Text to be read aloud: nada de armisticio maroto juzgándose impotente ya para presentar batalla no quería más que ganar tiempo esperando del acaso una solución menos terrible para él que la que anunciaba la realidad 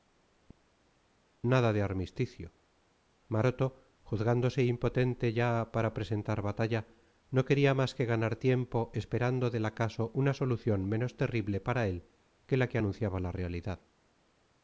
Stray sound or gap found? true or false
false